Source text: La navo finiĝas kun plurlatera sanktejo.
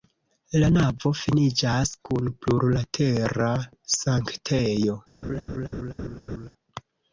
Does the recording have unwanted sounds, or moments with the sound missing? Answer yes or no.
yes